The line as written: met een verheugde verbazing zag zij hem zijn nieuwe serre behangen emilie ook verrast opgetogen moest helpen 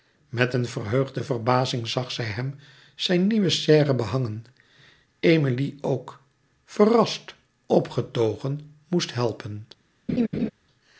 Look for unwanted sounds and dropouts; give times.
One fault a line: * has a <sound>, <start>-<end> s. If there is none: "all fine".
* has a laugh, 10.1-10.5 s